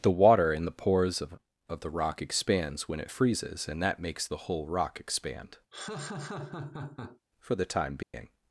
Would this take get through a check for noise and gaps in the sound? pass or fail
fail